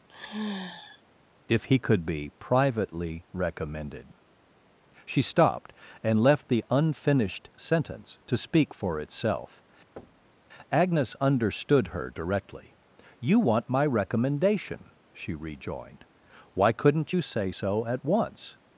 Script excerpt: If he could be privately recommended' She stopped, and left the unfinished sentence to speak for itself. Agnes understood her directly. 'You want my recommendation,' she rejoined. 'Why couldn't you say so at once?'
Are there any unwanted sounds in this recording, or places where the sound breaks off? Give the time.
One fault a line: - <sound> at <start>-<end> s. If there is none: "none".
- sigh at 0.1-1.0 s
- thud at 10.0-10.4 s